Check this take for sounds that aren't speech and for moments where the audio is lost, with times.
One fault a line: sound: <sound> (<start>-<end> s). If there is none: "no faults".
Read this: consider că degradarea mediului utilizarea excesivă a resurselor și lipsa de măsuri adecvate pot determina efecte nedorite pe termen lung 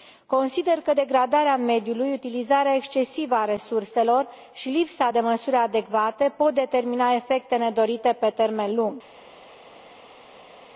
no faults